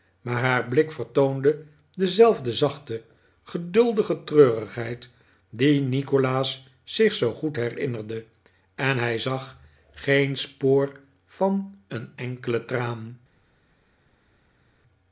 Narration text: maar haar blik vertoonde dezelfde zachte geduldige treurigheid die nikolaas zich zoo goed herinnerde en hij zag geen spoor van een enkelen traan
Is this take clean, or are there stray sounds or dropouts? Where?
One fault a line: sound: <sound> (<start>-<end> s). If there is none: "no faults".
no faults